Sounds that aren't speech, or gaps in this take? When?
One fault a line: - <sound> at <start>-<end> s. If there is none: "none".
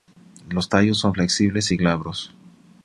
none